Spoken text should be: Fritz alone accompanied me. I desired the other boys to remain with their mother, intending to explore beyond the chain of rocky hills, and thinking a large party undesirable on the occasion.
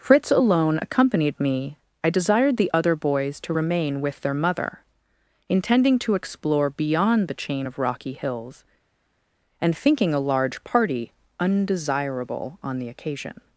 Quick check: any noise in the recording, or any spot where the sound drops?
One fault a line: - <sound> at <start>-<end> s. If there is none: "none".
none